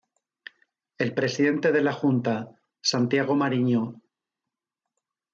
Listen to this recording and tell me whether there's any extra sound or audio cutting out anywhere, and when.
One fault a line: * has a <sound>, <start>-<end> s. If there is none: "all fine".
all fine